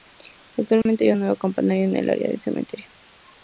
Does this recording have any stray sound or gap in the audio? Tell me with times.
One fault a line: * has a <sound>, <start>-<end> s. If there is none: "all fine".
* has a dropout, 0.8-0.9 s